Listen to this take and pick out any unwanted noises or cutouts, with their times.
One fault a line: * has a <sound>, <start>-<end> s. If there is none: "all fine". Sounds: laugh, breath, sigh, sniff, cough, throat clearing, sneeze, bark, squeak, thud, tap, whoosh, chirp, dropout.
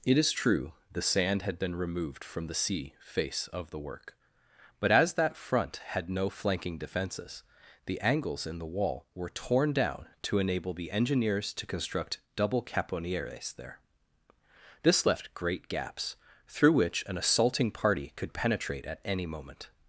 all fine